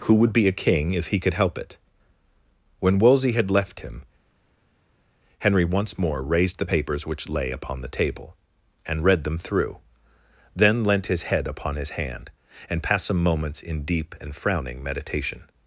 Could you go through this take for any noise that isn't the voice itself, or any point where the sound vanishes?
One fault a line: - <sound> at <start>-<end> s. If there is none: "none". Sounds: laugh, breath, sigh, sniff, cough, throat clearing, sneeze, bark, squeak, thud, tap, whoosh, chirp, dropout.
none